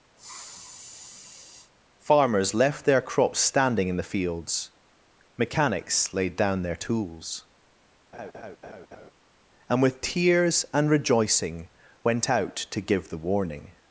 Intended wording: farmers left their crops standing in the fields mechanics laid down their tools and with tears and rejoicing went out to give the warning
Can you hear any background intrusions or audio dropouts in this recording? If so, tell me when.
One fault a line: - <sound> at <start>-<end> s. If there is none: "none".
- sniff at 0.2-1.7 s
- laugh at 8.1-9.1 s